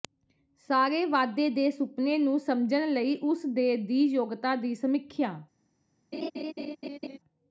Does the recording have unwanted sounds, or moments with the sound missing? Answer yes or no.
yes